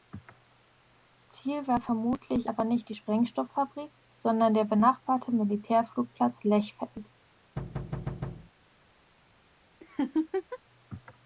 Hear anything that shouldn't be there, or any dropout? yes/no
yes